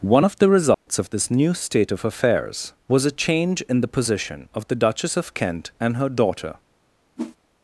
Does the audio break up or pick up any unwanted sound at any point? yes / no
yes